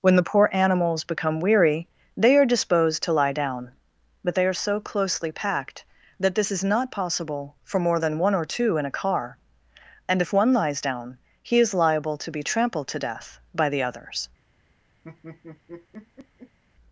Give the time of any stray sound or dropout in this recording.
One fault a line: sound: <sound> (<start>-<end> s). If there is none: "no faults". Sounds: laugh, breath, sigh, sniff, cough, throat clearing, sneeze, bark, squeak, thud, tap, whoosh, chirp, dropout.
sound: laugh (15.0-16.6 s)